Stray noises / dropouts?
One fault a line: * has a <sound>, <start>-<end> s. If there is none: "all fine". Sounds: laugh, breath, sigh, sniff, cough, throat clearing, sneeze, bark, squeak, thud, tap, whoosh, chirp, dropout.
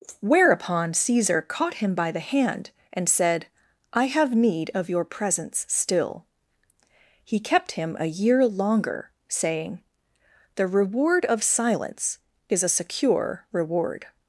all fine